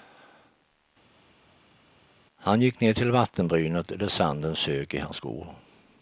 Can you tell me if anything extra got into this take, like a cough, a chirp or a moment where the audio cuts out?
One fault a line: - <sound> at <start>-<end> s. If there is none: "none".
none